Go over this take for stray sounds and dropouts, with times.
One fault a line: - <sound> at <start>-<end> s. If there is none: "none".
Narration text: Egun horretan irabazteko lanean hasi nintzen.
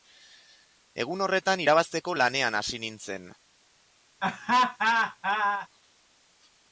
- laugh at 4.2-5.7 s